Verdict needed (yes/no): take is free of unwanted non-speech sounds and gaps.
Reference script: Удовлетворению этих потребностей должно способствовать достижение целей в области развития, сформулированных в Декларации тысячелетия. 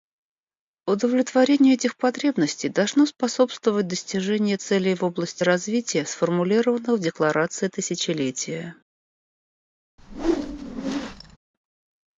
no